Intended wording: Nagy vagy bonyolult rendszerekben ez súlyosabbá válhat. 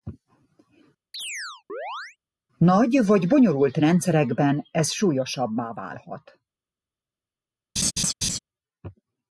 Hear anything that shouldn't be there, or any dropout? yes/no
yes